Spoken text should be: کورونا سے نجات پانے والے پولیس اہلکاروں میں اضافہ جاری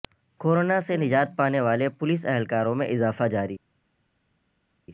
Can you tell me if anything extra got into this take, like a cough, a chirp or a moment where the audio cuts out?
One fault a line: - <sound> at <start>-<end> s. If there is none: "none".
none